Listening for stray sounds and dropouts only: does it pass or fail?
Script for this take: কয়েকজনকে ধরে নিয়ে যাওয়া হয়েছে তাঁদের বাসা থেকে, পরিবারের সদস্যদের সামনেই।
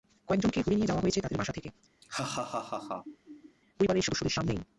fail